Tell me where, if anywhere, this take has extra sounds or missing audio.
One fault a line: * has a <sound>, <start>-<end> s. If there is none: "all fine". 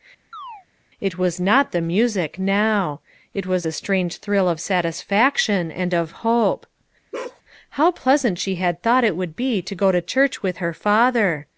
* has a chirp, 0.3-0.7 s
* has a bark, 7.1-7.4 s